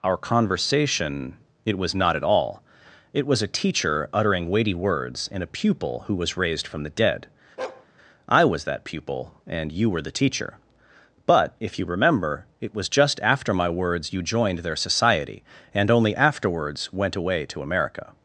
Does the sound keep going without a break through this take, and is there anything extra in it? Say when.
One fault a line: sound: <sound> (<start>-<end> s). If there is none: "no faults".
sound: bark (7.6-7.9 s)